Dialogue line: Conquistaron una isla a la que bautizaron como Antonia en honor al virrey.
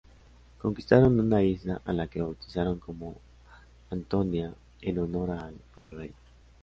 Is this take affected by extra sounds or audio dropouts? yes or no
yes